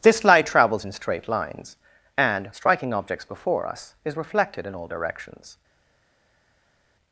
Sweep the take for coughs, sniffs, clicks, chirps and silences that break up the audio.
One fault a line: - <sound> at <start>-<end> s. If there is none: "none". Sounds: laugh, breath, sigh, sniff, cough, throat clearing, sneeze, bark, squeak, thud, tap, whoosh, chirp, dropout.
none